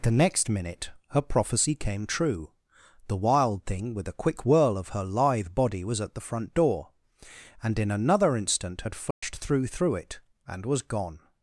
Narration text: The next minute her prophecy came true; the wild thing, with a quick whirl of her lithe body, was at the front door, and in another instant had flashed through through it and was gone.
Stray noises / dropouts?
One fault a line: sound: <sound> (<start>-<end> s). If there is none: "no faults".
sound: dropout (9.1-9.2 s)